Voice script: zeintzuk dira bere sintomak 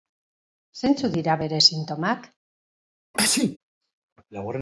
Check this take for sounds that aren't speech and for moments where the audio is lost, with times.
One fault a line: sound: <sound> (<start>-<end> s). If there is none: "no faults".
sound: sneeze (3.1-3.6 s)